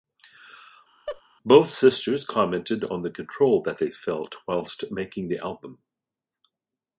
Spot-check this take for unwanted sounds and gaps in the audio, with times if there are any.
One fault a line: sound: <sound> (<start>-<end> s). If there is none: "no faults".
sound: laugh (1.1-1.2 s)